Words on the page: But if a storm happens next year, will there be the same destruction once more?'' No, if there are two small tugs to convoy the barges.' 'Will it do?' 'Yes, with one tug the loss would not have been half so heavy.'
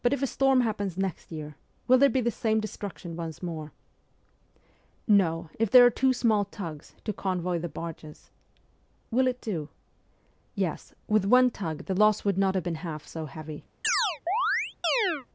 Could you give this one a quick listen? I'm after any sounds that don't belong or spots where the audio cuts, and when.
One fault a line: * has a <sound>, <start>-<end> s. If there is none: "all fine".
* has a chirp, 13.8-15.3 s